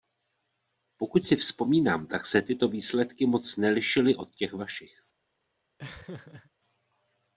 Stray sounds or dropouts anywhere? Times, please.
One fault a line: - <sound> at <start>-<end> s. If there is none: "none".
- laugh at 5.8-6.5 s